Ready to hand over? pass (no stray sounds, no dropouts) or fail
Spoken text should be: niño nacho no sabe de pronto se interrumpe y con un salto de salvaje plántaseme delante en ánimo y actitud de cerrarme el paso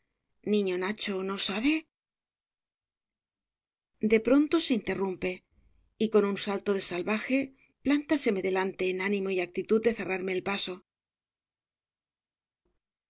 pass